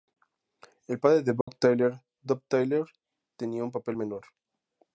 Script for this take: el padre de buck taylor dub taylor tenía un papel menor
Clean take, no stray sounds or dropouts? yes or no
no